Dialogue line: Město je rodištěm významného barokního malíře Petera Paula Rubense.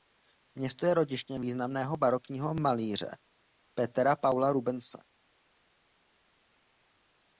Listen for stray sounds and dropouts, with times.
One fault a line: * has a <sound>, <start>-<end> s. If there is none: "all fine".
all fine